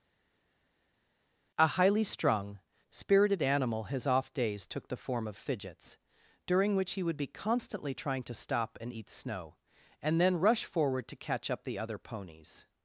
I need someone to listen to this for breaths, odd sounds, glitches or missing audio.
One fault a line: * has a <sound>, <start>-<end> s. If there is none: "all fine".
all fine